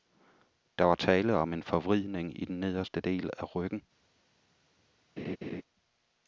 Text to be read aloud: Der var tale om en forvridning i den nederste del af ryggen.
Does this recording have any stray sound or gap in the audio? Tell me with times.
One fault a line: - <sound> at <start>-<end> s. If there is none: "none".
- laugh at 5.2-5.6 s